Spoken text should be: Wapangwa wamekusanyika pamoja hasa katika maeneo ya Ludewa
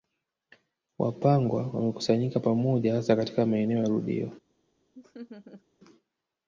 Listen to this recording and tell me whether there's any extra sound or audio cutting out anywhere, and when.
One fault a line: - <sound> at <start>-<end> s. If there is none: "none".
- laugh at 4.9-5.6 s